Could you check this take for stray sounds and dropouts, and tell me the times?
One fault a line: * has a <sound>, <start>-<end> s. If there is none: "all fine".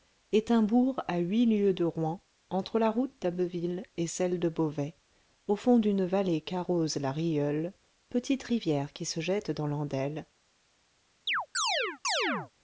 * has a chirp, 11.3-12.5 s